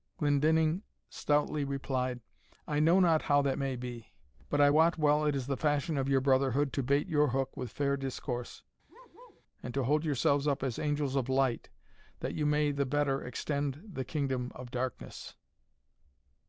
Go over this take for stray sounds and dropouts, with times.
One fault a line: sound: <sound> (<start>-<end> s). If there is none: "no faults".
sound: bark (8.9-9.4 s)